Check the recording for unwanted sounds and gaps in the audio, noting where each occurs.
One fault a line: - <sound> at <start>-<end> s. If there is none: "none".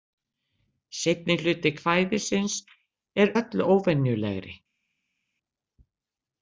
none